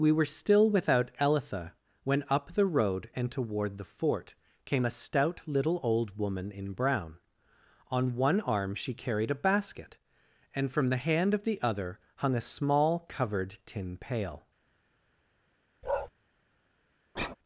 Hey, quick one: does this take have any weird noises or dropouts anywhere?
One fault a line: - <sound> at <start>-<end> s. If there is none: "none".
- bark at 15.8-16.1 s
- sigh at 17.2-17.4 s